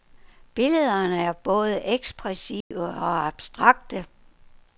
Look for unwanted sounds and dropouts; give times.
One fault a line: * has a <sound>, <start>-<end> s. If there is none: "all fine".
* has a dropout, 2.6-2.7 s